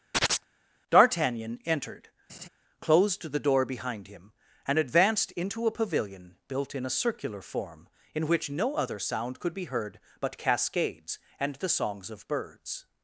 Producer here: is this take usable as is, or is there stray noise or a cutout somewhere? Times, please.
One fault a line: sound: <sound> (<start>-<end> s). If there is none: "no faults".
sound: chirp (0.1-0.4 s)
sound: laugh (2.3-2.5 s)